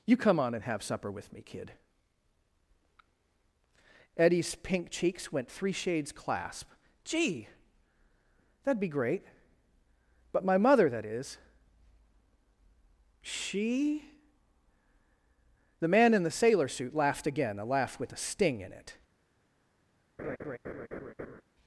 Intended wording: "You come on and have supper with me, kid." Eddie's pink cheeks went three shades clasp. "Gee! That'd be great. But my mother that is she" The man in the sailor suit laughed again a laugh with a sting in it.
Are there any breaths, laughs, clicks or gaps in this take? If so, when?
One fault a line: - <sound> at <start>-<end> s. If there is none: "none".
- laugh at 20.2-21.4 s